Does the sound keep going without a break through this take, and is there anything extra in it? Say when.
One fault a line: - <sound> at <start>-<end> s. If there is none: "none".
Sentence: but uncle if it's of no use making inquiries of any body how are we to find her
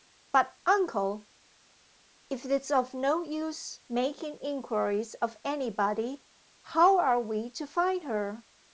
none